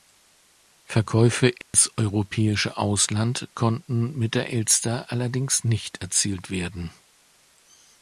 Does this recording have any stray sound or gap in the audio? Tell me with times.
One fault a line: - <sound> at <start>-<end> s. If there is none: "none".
- dropout at 1.6-1.7 s